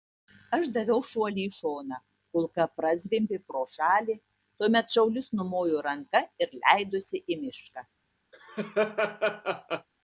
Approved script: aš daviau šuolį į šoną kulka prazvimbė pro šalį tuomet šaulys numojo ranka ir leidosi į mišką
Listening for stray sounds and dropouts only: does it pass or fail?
fail